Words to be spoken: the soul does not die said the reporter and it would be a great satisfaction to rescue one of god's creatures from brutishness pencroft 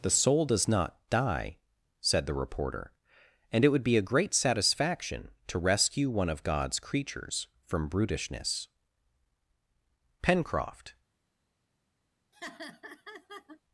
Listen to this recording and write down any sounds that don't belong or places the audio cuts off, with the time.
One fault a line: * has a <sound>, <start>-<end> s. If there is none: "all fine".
* has a laugh, 12.3-13.6 s